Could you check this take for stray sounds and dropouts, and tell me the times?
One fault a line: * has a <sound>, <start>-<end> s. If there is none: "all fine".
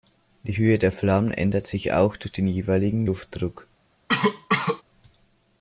* has a cough, 4.1-4.8 s